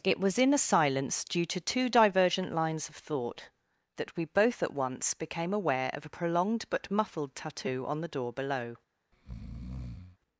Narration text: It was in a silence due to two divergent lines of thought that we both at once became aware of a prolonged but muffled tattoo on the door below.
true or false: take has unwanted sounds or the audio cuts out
true